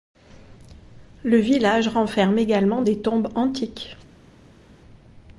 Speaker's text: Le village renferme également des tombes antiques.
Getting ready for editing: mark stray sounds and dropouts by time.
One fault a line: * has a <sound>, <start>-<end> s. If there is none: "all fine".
all fine